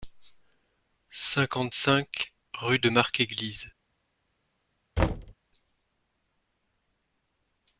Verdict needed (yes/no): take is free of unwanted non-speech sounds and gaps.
no